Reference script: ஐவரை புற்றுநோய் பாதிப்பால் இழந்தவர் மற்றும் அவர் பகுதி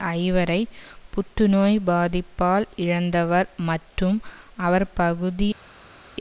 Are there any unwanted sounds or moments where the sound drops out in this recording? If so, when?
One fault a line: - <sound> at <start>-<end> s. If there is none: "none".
none